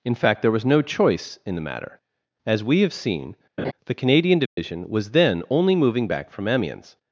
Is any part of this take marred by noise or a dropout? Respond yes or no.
yes